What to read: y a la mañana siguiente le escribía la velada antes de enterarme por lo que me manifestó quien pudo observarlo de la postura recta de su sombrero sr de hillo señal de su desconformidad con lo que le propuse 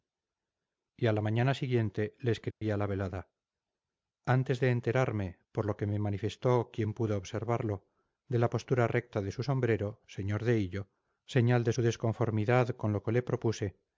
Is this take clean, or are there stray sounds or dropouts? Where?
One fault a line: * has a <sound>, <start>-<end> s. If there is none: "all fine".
* has a dropout, 2.5-2.6 s